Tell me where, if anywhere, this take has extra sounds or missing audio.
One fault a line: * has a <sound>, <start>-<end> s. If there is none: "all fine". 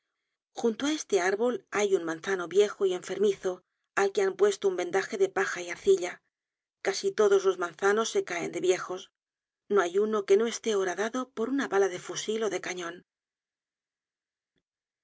all fine